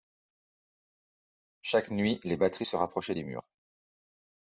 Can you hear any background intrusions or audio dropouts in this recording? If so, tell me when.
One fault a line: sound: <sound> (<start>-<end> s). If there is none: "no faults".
no faults